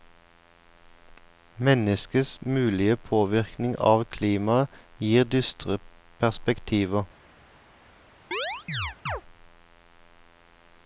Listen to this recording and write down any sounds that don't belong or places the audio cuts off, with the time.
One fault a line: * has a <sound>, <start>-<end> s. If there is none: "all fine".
* has a chirp, 8.3-9.2 s